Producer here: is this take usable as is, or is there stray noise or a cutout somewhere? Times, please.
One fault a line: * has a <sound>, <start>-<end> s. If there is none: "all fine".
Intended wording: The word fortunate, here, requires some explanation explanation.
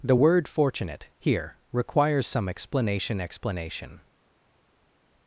all fine